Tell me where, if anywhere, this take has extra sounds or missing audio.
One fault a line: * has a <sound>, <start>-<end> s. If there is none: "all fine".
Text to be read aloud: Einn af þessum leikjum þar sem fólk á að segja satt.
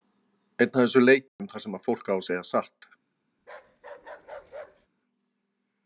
* has a dropout, 1.3-1.4 s
* has a bark, 3.4-4.9 s